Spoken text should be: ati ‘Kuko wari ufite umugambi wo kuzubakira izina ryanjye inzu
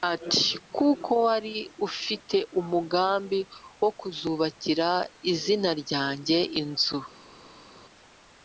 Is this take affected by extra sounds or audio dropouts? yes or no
no